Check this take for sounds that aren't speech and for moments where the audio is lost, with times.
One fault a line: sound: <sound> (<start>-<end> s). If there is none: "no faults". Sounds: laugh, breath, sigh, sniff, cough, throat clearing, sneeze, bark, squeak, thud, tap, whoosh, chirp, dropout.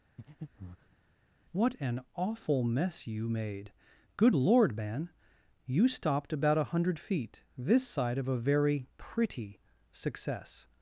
sound: breath (0.2-1.0 s)